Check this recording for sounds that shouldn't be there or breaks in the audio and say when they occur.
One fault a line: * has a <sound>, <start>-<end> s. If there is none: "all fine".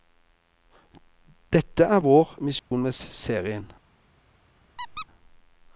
* has a dropout, 2.6-2.7 s
* has a squeak, 4.8-5.1 s